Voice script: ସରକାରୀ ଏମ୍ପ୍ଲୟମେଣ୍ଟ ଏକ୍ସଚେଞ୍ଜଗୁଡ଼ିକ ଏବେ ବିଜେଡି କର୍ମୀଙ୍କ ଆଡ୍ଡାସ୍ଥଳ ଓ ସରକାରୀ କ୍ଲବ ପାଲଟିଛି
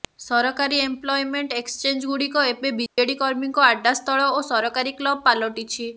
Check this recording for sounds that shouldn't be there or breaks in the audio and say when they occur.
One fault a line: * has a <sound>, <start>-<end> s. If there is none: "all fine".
* has a dropout, 2.9-3.0 s